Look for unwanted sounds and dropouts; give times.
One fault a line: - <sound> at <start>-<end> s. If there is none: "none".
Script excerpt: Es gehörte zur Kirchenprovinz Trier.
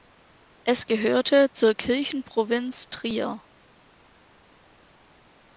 none